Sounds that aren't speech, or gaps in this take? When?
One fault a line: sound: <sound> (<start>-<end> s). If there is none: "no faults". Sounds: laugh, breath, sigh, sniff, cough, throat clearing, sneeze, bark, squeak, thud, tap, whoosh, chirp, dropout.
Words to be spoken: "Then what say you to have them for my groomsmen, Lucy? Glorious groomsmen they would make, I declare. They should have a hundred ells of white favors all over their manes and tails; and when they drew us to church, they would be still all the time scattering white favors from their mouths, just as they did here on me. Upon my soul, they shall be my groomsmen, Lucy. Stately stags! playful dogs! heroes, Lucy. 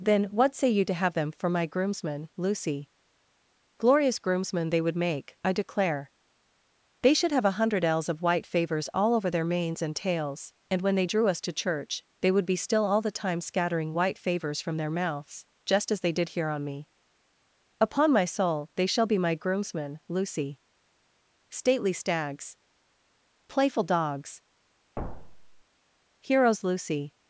sound: thud (25.0-25.6 s)